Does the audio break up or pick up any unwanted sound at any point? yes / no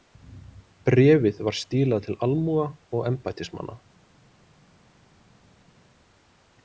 no